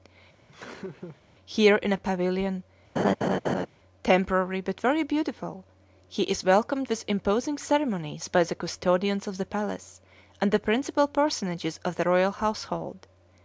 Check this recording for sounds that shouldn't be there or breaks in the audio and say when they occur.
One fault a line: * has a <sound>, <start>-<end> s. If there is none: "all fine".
* has a laugh, 0.5-1.2 s
* has a laugh, 3.0-3.7 s